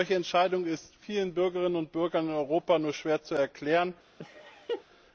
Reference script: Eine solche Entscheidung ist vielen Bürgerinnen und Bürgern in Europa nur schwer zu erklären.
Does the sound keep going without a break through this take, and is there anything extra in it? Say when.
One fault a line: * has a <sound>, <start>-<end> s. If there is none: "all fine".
* has a laugh, 4.2-4.8 s